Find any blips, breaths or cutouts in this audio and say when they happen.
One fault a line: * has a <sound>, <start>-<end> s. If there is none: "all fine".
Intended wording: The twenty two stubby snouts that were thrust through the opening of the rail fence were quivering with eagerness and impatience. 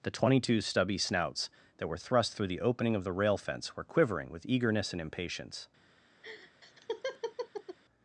* has a laugh, 6.2-7.8 s